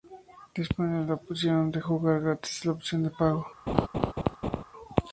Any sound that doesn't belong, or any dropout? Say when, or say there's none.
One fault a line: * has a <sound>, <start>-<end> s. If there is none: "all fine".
* has a laugh, 3.7-4.6 s